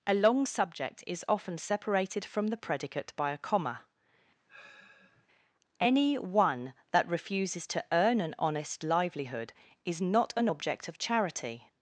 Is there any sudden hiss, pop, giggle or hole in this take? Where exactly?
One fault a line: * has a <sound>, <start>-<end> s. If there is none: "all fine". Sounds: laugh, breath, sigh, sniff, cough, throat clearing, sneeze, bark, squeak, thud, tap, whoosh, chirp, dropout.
* has a sigh, 4.5-5.3 s